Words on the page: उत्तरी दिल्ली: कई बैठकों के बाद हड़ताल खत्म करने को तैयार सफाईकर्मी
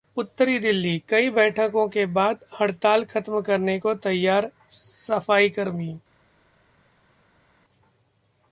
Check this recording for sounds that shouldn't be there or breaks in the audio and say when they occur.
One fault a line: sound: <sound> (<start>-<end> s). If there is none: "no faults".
no faults